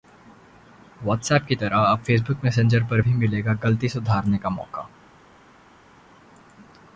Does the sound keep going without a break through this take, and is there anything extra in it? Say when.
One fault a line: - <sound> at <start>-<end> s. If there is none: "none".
none